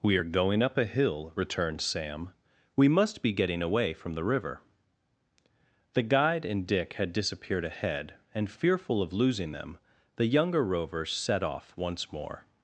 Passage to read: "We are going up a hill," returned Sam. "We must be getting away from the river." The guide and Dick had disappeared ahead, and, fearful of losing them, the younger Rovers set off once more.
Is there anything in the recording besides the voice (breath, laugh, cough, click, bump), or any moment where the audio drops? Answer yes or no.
no